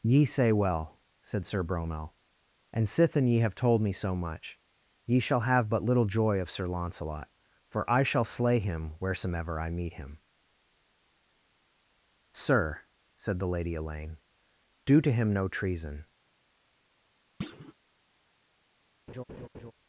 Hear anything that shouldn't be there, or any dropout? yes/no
yes